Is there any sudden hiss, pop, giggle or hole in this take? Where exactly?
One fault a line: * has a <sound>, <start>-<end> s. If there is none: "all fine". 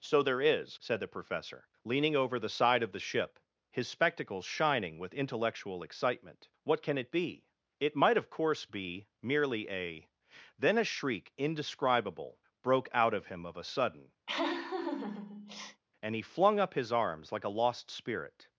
* has a laugh, 14.3-15.8 s